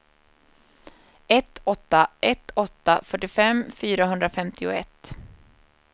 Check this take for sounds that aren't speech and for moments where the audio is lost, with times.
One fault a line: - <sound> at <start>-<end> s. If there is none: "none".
none